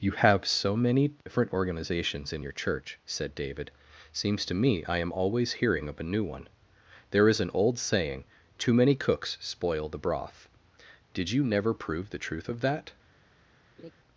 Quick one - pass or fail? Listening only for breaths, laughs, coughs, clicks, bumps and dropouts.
fail